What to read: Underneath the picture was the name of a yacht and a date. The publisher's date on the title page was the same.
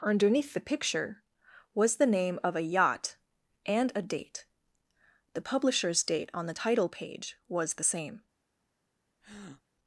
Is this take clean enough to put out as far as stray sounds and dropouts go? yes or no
no